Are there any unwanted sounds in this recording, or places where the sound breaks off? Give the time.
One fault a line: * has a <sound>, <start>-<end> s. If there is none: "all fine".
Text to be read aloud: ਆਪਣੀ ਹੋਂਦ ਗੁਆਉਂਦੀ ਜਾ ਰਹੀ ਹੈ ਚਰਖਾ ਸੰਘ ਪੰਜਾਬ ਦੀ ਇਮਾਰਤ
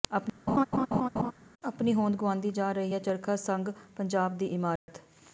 * has a laugh, 0.5-1.3 s
* has a dropout, 4.8-4.9 s